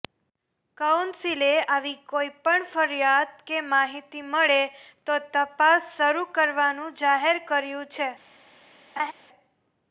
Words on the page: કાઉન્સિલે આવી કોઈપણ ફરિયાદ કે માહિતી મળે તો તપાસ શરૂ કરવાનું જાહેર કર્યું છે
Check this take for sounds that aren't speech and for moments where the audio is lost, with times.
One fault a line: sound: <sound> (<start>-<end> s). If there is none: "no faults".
sound: laugh (9.0-9.1 s)